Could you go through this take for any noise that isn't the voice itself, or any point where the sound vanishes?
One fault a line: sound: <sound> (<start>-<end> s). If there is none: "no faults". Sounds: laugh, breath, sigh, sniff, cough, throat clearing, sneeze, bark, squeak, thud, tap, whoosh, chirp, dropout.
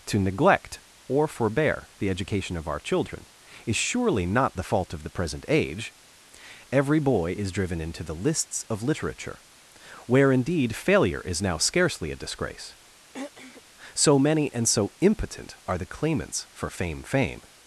sound: throat clearing (13.1-13.6 s)